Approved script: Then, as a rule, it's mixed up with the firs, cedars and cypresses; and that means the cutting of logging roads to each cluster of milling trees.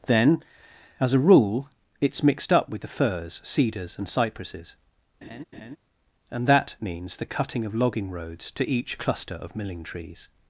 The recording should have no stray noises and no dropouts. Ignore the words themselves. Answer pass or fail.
fail